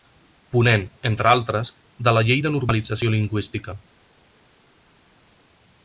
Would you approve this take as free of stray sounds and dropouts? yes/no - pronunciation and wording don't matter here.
yes